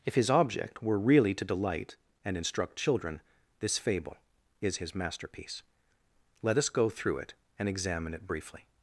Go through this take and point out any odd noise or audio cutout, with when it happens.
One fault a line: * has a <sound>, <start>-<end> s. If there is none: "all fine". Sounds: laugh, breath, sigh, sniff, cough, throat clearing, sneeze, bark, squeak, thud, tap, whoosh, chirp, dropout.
all fine